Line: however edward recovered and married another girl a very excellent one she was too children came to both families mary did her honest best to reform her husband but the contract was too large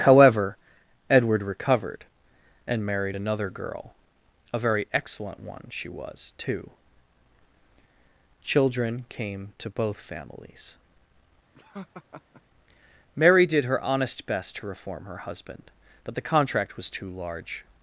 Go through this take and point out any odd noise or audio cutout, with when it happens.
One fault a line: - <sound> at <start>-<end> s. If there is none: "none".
- laugh at 11.5-12.4 s